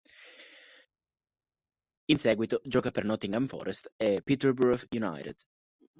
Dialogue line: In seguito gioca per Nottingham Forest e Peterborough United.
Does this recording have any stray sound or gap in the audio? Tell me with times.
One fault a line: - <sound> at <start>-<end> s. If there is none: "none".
none